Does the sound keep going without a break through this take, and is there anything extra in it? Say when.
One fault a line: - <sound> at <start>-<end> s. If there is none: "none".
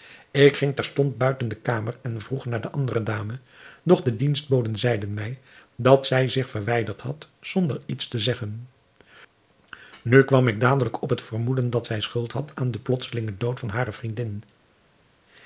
none